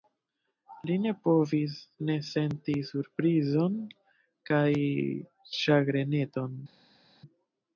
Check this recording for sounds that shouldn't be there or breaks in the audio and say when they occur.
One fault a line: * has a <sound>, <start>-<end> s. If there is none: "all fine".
all fine